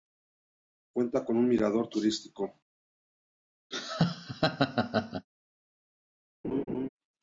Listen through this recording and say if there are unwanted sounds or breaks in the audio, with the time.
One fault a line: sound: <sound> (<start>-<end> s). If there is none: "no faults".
sound: laugh (3.7-5.3 s)
sound: laugh (6.4-6.9 s)